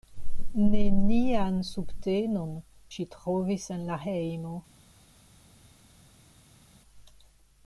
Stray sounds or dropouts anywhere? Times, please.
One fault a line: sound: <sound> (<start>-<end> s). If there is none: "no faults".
no faults